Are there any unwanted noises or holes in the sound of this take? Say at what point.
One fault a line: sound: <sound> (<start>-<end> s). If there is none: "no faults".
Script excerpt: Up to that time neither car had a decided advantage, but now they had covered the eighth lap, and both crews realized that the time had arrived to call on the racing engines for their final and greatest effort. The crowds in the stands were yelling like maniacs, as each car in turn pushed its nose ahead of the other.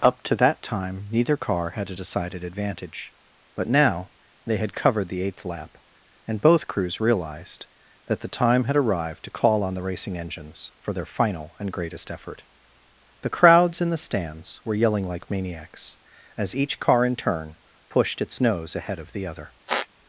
sound: squeak (19.7-19.9 s)